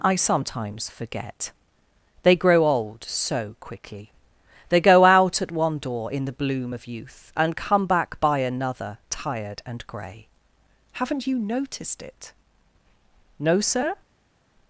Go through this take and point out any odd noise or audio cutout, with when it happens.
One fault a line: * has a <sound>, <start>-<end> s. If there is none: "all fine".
all fine